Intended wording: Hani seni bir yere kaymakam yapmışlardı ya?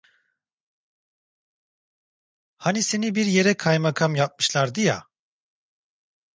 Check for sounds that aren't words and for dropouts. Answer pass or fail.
pass